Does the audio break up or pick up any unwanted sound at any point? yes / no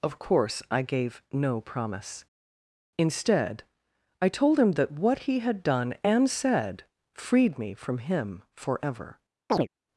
yes